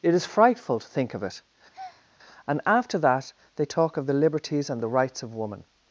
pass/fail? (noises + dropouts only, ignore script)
fail